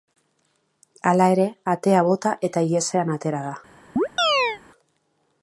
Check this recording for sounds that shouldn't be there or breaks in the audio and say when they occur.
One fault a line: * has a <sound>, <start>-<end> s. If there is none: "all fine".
* has a chirp, 4.0-4.6 s